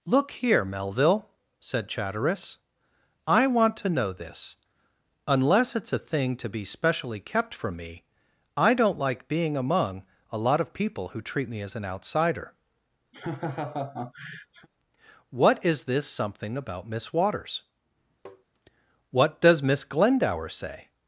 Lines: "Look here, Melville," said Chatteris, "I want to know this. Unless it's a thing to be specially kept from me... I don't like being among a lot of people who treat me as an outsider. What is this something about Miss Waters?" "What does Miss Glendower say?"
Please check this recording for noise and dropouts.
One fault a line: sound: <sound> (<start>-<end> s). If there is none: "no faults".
sound: laugh (13.1-14.7 s)
sound: tap (18.3-18.5 s)